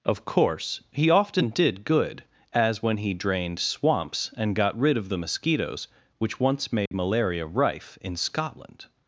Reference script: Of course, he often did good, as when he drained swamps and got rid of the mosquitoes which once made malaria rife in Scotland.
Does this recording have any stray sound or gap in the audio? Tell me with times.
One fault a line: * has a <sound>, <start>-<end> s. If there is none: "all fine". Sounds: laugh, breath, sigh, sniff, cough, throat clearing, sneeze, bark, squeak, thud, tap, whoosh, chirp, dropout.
* has a dropout, 6.9-6.9 s